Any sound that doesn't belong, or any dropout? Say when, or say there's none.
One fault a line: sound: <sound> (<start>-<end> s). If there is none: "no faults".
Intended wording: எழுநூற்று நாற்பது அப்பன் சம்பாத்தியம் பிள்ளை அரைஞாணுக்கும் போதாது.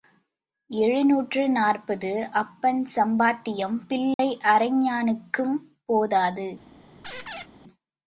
sound: dropout (4.1-4.2 s)
sound: squeak (7.0-7.5 s)